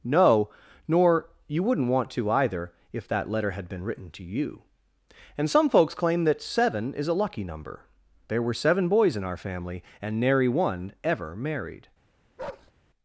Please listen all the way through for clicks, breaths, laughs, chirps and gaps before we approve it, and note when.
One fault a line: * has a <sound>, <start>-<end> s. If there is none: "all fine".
* has a bark, 12.4-12.7 s